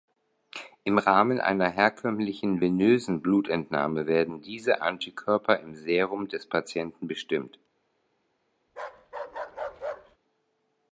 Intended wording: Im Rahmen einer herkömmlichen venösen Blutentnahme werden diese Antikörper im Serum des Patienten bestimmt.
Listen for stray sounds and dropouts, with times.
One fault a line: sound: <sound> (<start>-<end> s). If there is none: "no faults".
sound: bark (8.7-10.2 s)